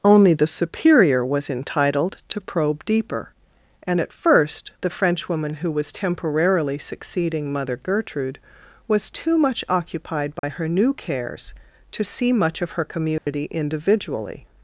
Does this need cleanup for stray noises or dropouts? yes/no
yes